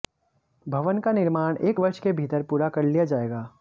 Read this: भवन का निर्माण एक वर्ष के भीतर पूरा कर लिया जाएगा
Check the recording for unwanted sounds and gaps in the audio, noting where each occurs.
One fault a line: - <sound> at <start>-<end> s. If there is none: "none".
none